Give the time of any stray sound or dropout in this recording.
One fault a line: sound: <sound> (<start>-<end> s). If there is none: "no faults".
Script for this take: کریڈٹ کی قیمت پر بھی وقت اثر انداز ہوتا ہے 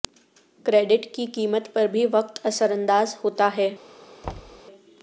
sound: thud (4.2-4.6 s)